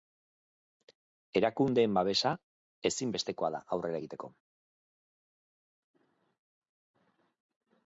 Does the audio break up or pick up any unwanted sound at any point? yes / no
no